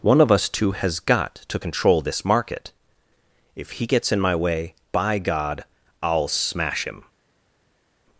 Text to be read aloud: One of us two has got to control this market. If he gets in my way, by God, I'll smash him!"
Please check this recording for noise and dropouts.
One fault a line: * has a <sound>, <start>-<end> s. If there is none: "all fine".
all fine